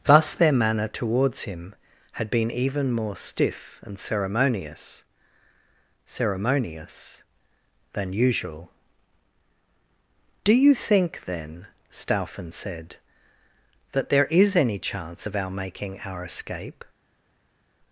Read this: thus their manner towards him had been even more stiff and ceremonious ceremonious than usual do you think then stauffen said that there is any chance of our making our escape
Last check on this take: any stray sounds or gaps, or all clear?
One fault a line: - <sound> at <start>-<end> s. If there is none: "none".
none